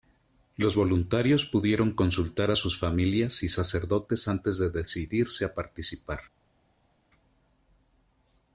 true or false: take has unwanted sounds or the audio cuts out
false